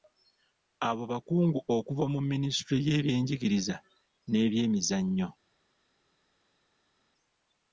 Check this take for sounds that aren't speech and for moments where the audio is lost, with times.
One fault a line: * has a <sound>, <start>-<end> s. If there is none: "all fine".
all fine